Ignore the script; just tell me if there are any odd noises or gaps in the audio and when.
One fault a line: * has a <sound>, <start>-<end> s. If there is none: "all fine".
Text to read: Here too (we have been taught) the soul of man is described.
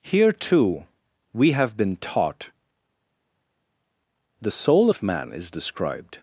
all fine